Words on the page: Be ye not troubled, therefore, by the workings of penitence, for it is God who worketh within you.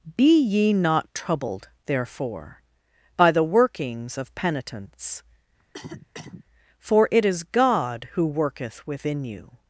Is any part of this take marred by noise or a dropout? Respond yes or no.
yes